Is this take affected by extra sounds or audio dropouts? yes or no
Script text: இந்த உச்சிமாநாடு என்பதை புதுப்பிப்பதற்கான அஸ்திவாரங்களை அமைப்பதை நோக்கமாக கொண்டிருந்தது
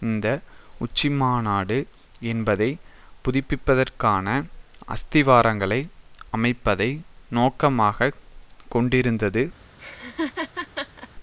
yes